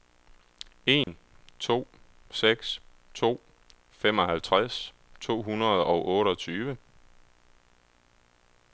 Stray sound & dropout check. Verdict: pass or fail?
fail